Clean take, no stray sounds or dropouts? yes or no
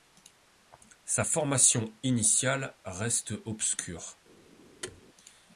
no